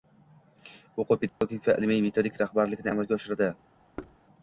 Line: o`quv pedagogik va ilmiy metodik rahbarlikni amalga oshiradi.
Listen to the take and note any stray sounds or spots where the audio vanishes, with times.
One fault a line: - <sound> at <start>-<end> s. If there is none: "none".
- dropout at 1.3-1.4 s
- thud at 4.0-4.2 s